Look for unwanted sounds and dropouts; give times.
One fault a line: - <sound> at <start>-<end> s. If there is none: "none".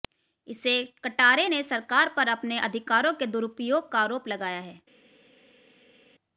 none